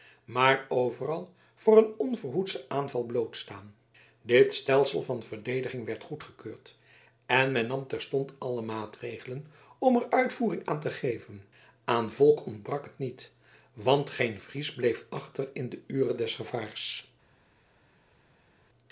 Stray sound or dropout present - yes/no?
no